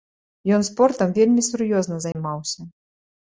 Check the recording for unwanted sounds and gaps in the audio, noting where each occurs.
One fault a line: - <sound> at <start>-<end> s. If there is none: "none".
- dropout at 2.1-2.2 s